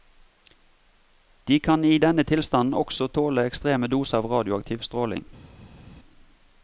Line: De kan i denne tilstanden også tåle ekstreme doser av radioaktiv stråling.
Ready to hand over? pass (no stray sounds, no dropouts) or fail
pass